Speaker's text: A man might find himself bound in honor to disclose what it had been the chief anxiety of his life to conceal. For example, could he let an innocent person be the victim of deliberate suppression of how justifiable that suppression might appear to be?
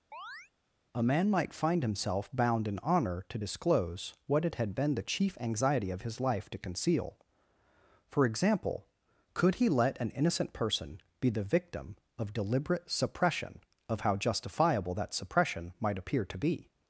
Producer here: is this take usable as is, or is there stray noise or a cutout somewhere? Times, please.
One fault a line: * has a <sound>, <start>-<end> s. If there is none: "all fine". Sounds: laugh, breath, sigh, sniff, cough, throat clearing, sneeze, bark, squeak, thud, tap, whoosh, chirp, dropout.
* has a chirp, 0.1-0.5 s